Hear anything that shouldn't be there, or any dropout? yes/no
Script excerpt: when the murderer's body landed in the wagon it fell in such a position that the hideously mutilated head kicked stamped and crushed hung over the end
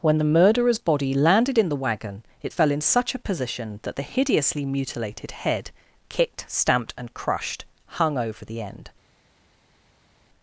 no